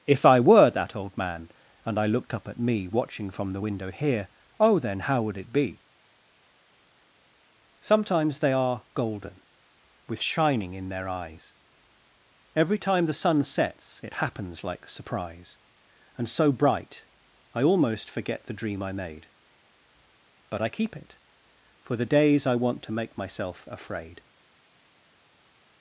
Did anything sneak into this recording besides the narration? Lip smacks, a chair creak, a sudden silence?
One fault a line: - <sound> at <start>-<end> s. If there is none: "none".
none